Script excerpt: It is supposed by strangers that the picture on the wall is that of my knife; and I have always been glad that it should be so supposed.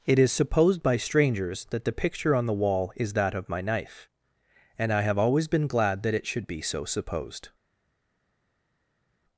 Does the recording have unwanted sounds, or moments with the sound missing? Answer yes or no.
no